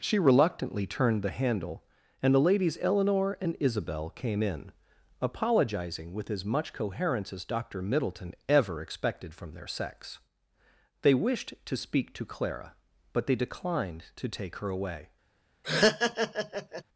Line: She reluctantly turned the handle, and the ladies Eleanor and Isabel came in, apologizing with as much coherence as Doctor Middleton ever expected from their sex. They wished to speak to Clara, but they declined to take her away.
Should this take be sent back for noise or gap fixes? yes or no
yes